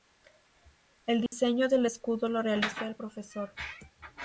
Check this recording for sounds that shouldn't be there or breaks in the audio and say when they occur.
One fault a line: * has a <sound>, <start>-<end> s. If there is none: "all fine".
* has a dropout, 1.3-1.3 s